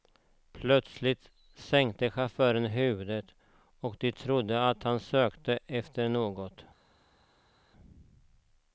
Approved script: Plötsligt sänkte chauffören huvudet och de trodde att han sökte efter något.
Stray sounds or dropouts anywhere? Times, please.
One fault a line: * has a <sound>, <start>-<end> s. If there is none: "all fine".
all fine